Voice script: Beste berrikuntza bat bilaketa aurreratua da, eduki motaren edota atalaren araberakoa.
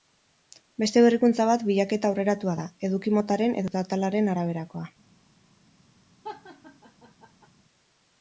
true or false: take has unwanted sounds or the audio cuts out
true